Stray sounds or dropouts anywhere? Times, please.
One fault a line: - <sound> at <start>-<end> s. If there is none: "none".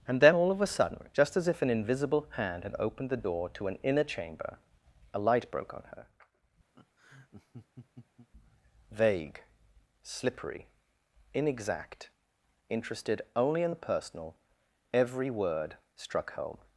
- laugh at 6.7-8.3 s